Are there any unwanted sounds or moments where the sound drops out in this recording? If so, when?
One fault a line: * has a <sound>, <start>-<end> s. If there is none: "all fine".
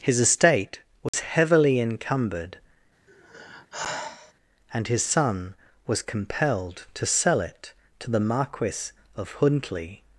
* has a dropout, 1.1-1.1 s
* has a sigh, 3.1-4.3 s